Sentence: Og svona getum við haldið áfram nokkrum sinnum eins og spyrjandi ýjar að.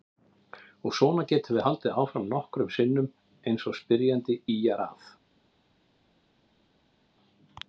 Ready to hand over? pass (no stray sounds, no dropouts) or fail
pass